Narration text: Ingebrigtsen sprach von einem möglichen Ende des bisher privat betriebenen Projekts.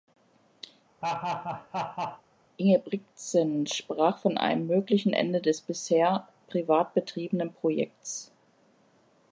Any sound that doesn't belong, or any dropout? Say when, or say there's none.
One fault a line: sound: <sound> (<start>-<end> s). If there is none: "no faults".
sound: laugh (1.0-2.2 s)